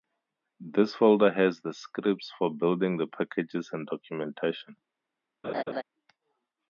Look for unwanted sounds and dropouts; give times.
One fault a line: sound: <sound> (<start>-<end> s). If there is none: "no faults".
sound: laugh (5.4-5.8 s)